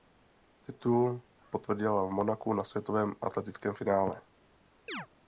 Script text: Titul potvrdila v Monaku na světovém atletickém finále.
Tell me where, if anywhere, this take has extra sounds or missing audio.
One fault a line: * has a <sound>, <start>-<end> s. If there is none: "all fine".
* has a chirp, 4.9-5.1 s